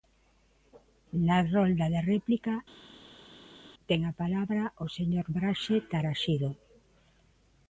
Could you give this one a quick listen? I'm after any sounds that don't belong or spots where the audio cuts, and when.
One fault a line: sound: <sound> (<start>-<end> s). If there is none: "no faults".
no faults